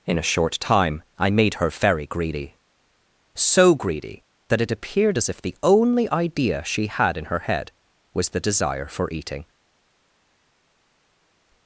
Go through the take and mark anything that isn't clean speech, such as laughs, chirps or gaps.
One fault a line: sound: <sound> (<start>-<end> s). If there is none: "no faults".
no faults